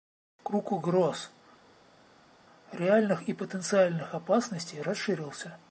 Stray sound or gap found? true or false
false